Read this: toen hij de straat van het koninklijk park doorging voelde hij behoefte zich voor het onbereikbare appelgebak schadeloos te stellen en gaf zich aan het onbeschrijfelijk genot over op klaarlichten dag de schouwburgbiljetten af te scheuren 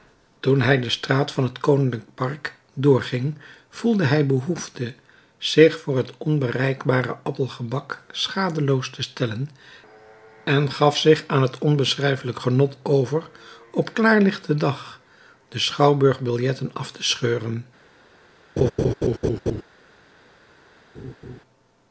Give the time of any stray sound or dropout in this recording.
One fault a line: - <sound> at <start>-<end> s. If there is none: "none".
- laugh at 18.6-19.6 s
- laugh at 20.9-21.4 s